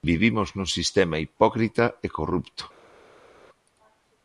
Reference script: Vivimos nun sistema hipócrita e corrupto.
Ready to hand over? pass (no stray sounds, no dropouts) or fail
pass